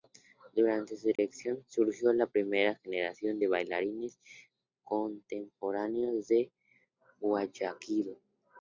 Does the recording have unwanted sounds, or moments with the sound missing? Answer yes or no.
yes